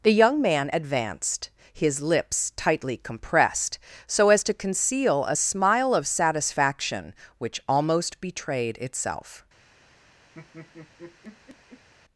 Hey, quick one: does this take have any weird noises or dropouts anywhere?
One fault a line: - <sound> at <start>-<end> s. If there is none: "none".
- laugh at 10.3-11.9 s